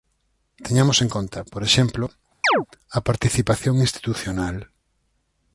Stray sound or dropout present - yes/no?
yes